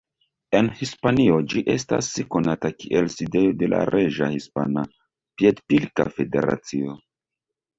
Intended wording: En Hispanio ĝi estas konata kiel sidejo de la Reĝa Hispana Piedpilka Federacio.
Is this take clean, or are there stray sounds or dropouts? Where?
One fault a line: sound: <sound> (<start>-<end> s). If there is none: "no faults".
no faults